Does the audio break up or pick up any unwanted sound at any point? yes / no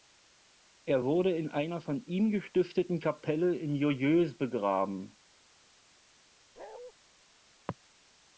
yes